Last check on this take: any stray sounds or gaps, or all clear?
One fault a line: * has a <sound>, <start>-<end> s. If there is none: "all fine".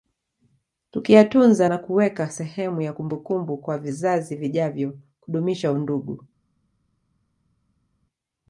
all fine